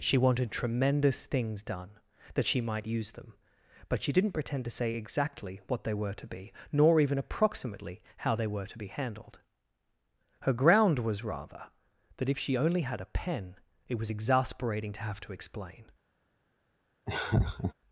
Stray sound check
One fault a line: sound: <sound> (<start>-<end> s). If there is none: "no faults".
sound: laugh (17.1-17.7 s)